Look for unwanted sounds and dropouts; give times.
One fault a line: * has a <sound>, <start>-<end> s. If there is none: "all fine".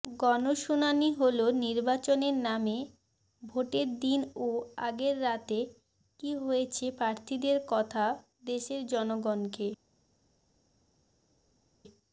all fine